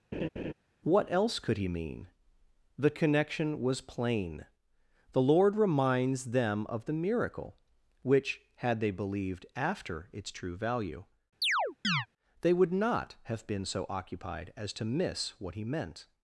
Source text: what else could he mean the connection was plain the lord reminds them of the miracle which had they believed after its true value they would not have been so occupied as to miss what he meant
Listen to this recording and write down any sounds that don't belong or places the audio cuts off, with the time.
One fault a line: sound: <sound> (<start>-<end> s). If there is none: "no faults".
sound: laugh (0.1-0.5 s)
sound: chirp (11.4-12.1 s)